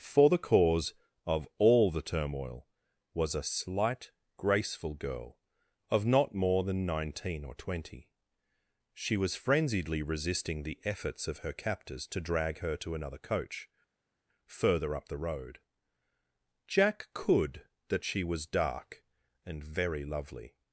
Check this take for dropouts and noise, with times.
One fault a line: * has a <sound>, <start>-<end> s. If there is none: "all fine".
all fine